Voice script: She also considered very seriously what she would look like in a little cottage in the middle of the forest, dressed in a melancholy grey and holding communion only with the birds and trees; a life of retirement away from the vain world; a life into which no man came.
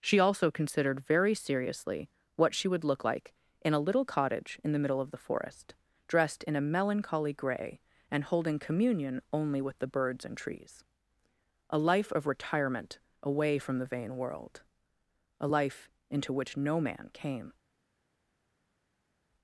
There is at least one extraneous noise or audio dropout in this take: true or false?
false